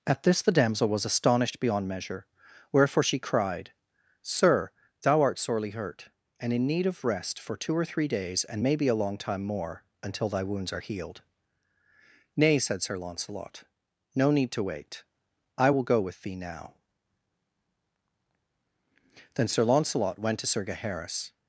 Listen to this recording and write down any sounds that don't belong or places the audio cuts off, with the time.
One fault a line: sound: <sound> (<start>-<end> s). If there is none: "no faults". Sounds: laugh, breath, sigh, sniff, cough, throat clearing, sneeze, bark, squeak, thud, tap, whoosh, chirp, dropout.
no faults